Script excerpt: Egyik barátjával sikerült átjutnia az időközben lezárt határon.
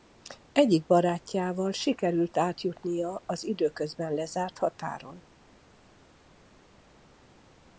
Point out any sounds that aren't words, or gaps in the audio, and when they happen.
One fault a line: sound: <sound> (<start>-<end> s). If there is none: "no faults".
no faults